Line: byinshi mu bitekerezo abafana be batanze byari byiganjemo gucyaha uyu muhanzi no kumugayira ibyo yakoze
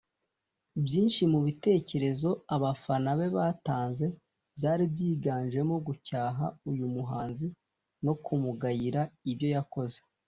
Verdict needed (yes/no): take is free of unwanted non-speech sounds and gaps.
yes